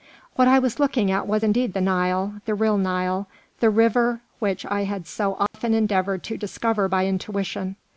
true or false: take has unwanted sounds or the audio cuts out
true